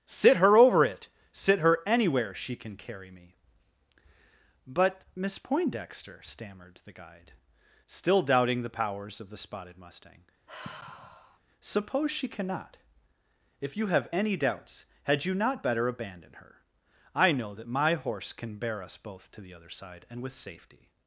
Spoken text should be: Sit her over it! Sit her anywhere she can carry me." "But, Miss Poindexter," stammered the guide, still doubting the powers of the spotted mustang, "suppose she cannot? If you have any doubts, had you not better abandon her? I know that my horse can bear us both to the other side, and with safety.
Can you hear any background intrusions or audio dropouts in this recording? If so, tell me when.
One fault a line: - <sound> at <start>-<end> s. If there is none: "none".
- sigh at 10.5-11.4 s